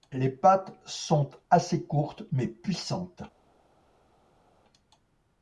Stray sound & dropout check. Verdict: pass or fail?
pass